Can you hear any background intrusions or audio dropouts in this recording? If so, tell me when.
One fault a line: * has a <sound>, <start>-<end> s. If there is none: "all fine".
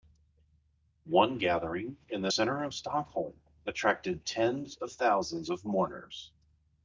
all fine